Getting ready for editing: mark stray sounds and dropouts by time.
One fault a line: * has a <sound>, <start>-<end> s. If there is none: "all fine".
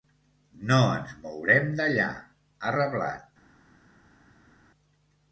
all fine